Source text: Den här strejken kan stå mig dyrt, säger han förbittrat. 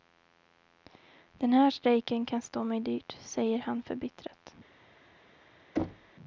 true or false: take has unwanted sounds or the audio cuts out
true